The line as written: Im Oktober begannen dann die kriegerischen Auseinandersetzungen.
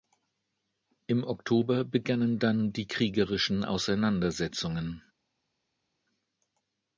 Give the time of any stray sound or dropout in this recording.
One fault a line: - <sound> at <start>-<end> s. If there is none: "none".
none